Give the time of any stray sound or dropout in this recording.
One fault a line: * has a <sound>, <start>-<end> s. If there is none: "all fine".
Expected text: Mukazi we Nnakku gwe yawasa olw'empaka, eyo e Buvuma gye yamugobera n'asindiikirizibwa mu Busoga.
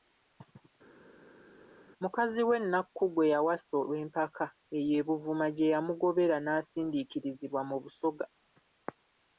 all fine